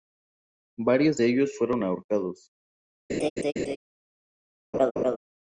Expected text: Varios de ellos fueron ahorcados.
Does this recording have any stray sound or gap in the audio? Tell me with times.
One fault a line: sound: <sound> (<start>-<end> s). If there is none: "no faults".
sound: laugh (3.1-3.8 s)
sound: laugh (4.7-5.2 s)